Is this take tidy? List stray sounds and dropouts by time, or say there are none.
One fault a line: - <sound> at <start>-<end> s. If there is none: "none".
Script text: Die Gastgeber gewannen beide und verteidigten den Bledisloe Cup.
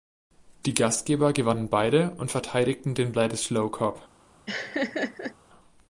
- laugh at 4.5-5.3 s